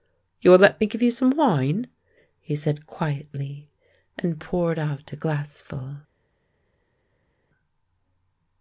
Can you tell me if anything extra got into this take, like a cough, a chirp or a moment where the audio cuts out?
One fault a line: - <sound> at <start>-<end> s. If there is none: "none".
none